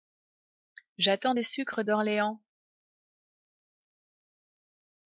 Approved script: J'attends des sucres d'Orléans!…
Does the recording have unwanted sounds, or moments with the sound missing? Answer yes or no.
no